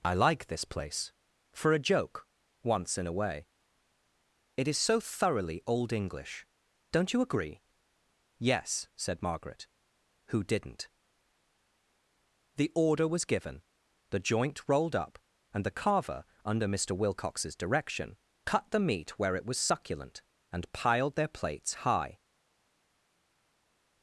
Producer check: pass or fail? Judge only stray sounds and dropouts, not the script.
pass